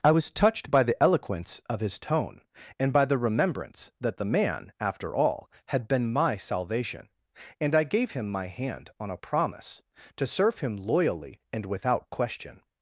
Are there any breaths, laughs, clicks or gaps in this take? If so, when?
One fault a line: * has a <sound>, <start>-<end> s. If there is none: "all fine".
all fine